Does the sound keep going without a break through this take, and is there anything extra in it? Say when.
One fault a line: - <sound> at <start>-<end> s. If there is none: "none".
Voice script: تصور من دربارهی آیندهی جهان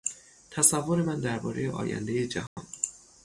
- dropout at 2.5-2.6 s